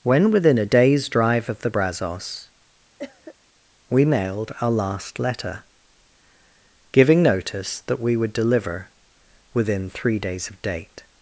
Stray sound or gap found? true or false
true